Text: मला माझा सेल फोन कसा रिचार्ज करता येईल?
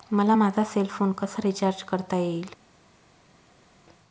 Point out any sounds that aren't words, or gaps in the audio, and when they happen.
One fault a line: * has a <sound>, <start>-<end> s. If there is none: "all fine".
all fine